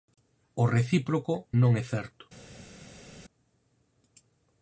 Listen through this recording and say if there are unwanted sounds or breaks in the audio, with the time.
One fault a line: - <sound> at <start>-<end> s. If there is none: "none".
none